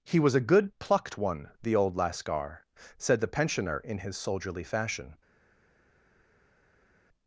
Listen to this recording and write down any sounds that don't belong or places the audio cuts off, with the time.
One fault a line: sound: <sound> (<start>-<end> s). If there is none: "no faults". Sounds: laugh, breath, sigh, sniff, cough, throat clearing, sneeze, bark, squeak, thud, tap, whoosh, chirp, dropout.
no faults